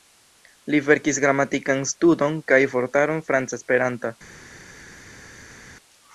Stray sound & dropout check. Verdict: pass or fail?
pass